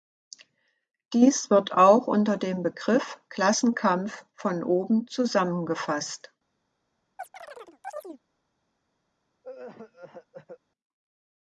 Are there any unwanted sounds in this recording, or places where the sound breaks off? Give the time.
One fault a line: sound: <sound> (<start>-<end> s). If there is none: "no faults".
sound: chirp (7.2-8.2 s)
sound: cough (9.4-10.6 s)